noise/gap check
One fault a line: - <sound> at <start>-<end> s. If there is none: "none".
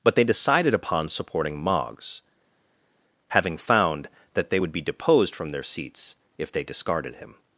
none